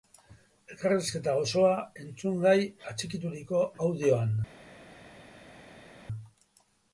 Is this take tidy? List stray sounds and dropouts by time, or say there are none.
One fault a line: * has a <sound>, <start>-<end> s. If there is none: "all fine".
all fine